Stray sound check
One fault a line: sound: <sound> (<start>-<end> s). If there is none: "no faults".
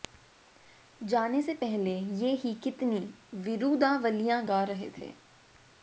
no faults